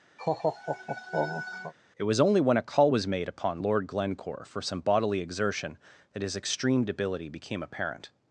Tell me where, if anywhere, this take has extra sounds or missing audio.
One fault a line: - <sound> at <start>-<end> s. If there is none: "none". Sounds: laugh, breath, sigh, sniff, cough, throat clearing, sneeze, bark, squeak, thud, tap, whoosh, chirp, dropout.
- laugh at 0.2-1.7 s